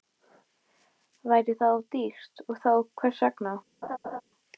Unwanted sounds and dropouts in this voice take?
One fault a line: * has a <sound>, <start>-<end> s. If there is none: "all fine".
* has a laugh, 3.8-4.2 s